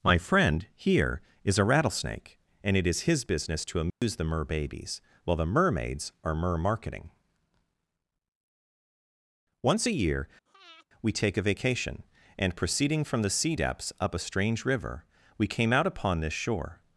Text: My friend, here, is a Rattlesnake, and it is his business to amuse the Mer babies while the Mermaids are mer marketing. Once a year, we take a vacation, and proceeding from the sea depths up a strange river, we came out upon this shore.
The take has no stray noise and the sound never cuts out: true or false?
false